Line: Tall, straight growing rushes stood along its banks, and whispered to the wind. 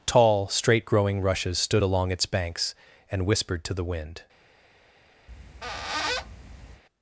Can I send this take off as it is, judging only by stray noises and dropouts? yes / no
no